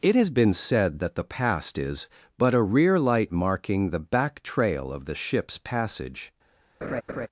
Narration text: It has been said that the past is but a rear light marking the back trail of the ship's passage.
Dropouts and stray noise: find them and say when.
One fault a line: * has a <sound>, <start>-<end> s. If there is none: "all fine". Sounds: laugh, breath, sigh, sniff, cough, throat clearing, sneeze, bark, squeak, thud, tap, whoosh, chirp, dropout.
* has a laugh, 6.8-7.3 s